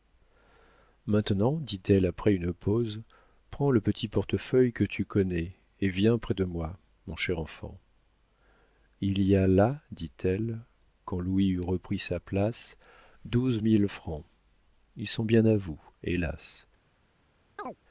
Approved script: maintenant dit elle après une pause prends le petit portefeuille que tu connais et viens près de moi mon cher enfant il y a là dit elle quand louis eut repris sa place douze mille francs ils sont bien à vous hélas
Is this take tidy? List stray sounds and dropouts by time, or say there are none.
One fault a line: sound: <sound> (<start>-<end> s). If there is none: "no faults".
sound: chirp (17.6-17.8 s)